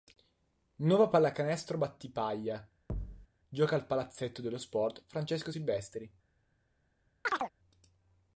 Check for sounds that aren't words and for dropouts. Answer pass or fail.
fail